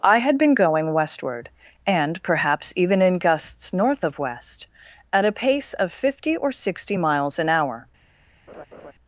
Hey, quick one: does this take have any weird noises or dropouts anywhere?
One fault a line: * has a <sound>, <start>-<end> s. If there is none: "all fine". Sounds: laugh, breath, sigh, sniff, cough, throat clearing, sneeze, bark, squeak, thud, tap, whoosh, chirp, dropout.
* has a laugh, 8.5-8.9 s